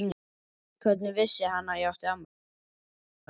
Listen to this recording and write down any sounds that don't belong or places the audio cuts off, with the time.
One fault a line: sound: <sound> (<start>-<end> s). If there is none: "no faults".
no faults